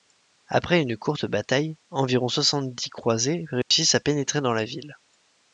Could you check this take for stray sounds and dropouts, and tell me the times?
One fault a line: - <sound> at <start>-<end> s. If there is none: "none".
- dropout at 3.6-3.7 s